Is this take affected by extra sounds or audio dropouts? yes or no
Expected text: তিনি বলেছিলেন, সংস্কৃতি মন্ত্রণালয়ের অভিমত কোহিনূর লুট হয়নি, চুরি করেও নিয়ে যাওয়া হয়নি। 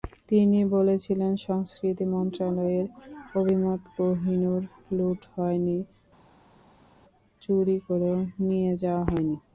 no